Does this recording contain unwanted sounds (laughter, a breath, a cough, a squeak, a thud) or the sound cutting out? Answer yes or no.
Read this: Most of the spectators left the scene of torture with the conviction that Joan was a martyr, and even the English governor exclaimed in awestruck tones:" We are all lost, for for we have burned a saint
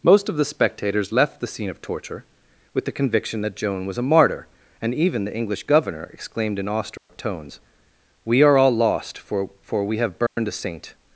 yes